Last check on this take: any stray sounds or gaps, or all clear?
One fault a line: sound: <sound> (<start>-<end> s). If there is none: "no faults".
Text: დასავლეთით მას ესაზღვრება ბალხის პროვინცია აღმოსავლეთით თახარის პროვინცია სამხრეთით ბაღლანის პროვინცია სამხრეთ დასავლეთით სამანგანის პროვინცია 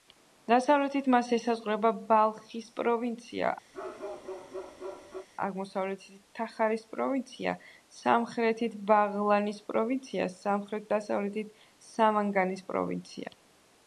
sound: bark (3.7-5.3 s)